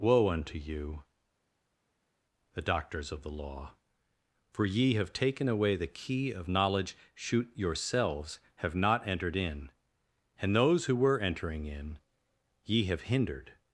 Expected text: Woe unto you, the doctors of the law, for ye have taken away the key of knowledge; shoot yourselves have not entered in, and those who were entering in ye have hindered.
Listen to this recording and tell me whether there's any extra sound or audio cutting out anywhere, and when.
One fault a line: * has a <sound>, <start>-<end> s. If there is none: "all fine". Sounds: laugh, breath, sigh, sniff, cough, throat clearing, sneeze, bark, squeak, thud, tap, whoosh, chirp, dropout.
all fine